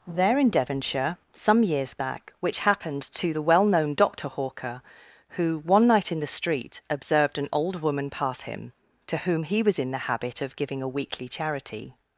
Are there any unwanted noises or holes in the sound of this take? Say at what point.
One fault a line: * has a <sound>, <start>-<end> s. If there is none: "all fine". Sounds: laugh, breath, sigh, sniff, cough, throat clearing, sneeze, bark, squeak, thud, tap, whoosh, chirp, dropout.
all fine